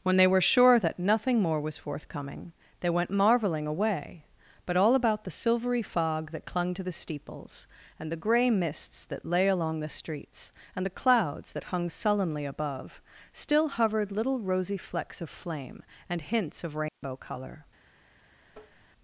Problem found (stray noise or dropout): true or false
true